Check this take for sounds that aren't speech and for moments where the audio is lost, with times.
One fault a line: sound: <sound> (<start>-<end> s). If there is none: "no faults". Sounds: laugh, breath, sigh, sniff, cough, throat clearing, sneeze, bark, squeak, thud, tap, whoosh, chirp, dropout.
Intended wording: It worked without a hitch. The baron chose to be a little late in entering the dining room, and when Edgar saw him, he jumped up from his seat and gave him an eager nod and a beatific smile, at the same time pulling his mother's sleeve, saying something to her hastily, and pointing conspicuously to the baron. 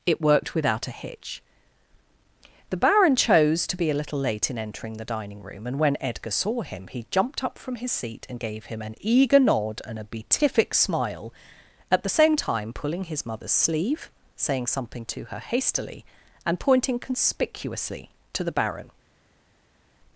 no faults